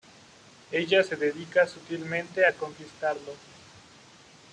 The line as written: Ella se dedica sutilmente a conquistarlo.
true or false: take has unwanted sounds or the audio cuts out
false